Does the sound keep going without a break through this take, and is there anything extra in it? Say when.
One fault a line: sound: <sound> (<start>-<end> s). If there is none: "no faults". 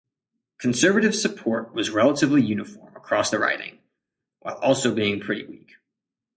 no faults